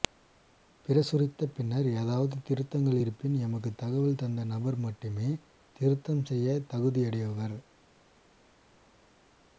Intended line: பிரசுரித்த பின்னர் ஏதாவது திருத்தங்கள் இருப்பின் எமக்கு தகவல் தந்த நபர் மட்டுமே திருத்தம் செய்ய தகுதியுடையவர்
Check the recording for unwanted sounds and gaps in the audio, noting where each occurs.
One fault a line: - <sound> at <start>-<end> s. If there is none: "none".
none